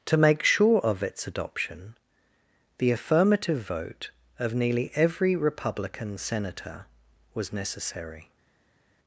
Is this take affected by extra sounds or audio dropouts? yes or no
no